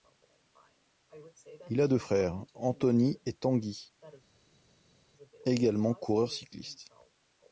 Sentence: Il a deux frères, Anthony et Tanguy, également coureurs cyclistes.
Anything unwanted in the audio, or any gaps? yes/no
no